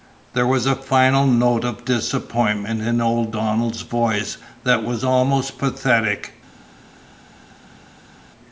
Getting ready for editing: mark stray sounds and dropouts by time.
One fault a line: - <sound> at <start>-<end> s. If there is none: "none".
none